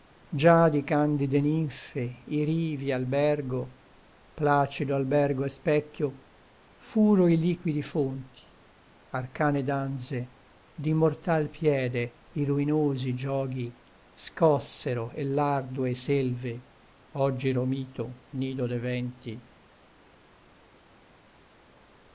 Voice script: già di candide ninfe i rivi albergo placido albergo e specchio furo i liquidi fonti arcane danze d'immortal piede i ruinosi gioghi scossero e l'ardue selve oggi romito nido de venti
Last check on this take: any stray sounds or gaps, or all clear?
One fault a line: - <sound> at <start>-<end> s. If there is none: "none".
none